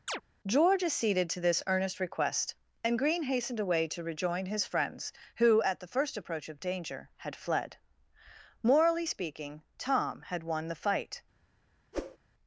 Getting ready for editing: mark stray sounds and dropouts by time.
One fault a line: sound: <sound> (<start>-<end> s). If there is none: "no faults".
sound: chirp (0.1-0.2 s)
sound: whoosh (11.9-12.2 s)